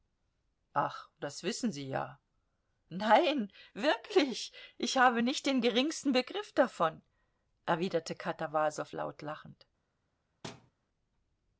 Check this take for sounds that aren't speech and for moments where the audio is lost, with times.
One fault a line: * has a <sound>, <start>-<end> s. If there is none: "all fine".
* has a thud, 10.4-10.7 s